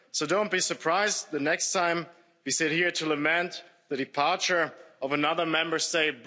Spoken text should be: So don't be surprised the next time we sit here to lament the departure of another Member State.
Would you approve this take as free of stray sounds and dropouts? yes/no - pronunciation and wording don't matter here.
yes